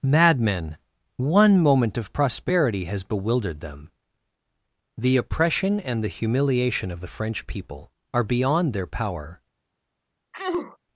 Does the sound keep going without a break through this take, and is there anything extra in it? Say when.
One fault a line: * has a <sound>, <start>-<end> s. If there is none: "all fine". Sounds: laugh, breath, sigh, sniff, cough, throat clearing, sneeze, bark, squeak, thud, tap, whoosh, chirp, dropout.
* has a sneeze, 10.3-10.8 s